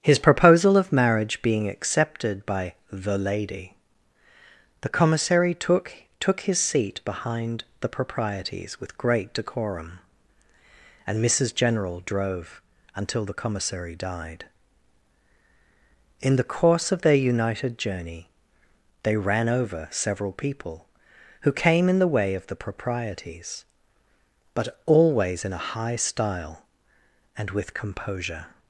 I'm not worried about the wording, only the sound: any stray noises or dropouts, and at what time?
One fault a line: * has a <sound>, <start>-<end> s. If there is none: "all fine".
all fine